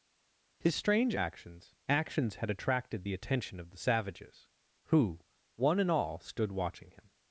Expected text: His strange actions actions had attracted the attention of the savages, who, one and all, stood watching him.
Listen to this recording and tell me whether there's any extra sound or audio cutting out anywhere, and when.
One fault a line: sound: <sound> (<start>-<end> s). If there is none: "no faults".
no faults